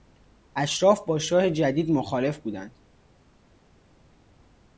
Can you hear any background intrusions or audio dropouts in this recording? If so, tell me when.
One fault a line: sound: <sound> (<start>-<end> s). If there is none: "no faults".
no faults